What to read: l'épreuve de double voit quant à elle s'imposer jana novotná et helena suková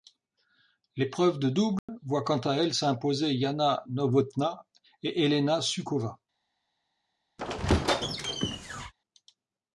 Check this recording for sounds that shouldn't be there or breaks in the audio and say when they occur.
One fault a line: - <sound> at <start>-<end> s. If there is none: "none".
- dropout at 1.8-1.9 s
- squeak at 7.4-8.9 s